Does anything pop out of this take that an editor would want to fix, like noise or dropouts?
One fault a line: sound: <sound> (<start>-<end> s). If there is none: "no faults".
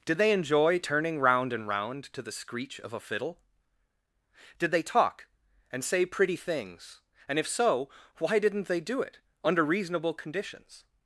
no faults